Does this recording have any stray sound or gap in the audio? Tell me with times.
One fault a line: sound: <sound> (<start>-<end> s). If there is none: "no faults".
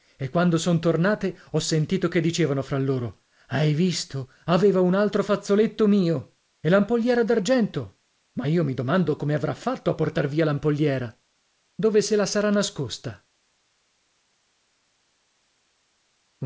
no faults